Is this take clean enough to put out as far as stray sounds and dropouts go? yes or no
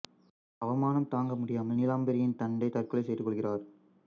yes